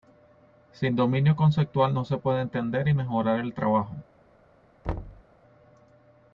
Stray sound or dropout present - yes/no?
yes